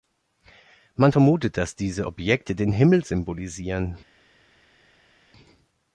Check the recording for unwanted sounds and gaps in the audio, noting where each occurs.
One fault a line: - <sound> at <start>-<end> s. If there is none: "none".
none